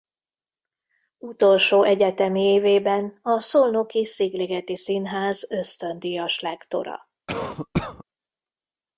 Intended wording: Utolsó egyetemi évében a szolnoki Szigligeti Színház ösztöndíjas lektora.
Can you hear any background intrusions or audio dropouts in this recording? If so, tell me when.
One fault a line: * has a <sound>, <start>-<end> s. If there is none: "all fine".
* has a cough, 7.3-8.0 s